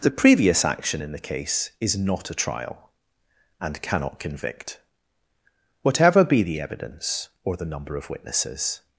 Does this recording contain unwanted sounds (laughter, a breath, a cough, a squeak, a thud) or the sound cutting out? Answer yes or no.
no